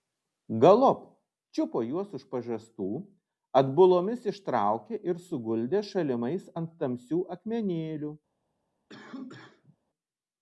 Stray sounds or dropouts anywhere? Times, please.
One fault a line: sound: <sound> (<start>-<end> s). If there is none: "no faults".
sound: cough (8.9-9.8 s)